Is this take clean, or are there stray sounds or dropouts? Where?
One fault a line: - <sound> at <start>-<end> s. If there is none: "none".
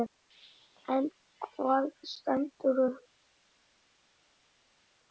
none